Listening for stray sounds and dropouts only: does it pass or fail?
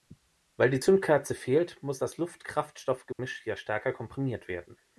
fail